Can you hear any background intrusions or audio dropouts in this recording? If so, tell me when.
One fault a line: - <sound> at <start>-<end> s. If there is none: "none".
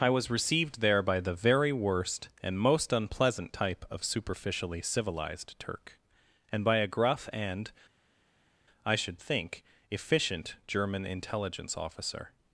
none